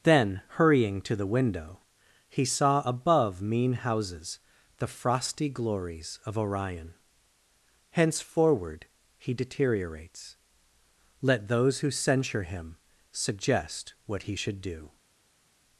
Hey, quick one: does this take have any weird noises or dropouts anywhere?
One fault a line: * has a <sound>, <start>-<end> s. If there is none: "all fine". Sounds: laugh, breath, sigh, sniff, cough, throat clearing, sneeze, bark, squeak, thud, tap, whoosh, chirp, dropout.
all fine